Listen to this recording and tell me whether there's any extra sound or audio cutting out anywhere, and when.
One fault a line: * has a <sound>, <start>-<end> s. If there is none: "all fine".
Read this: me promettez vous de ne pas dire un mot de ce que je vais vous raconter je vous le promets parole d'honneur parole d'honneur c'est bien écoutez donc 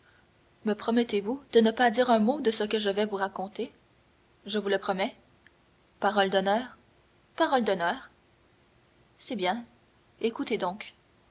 all fine